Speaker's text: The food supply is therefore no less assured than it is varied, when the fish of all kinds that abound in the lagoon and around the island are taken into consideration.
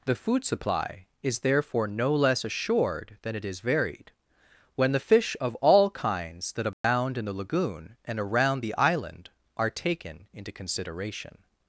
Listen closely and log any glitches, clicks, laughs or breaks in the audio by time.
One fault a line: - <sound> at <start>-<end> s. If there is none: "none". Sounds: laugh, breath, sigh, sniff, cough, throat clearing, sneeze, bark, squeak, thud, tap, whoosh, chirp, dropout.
- dropout at 6.7-6.8 s